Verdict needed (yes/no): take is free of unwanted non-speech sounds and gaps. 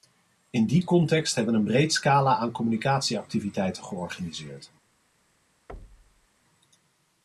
no